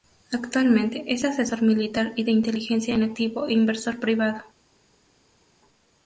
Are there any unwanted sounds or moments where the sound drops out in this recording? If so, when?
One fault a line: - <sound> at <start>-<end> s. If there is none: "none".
none